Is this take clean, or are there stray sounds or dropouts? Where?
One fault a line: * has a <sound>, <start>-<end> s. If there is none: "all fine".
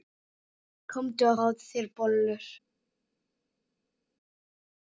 all fine